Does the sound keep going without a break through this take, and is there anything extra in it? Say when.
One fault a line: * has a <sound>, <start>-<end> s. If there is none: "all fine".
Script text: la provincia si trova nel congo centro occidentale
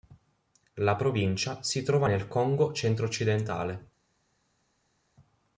all fine